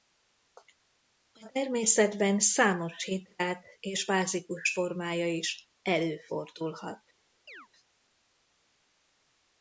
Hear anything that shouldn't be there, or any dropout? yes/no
yes